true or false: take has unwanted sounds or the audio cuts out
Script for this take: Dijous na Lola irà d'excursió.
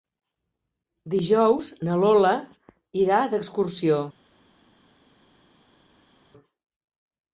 false